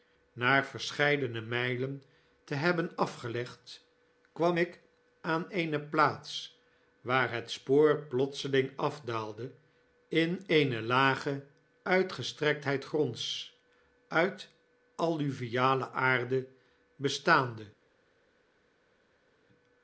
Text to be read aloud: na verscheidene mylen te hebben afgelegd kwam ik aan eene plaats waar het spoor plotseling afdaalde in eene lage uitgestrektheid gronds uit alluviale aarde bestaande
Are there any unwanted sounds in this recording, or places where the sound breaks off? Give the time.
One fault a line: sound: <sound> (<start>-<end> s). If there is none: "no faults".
no faults